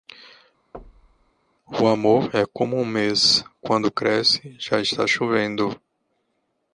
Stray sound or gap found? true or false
true